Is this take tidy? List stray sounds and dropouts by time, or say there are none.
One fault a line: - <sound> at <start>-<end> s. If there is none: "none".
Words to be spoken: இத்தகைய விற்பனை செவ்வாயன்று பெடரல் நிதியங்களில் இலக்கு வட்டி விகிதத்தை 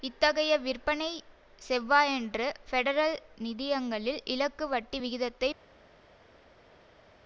none